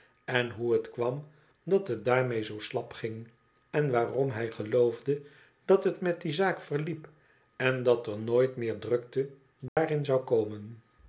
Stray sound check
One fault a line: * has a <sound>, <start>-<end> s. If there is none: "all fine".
* has a dropout, 9.7-9.8 s